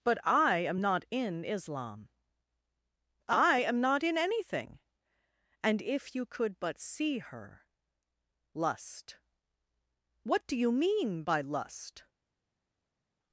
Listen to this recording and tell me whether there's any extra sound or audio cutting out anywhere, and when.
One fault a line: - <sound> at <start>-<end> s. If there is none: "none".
none